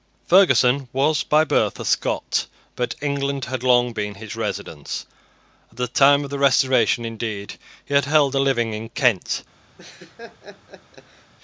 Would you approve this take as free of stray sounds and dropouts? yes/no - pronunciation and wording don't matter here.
no